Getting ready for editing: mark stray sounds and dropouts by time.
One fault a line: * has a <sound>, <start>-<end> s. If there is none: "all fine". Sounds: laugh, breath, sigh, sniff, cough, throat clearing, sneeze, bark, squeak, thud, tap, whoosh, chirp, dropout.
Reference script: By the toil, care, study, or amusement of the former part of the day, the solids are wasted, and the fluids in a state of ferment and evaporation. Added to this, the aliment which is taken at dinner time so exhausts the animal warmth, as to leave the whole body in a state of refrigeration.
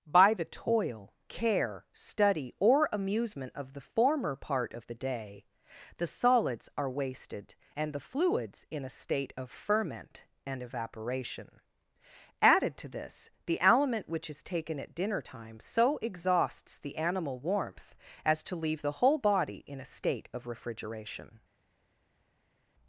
all fine